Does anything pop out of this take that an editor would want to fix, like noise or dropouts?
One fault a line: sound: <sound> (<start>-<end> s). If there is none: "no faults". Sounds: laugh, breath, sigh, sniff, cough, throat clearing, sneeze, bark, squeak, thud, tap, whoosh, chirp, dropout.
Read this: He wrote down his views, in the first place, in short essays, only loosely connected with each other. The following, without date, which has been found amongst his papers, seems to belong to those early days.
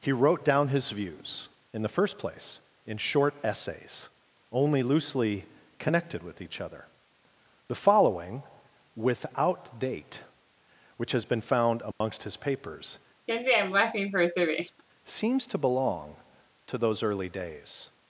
sound: dropout (11.9-12.0 s)
sound: laugh (13.3-14.8 s)